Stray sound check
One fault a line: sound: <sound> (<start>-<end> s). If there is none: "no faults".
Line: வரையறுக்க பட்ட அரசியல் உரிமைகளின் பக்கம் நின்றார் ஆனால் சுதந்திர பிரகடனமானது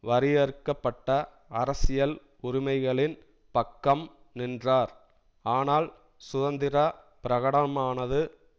no faults